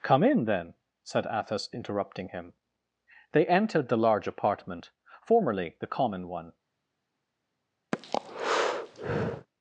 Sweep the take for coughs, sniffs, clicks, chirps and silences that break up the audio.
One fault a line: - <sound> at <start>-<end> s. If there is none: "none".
- breath at 7.9-9.5 s